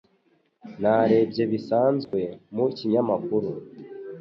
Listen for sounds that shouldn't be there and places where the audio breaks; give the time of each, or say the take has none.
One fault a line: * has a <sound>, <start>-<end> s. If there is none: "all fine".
* has a dropout, 2.0-2.1 s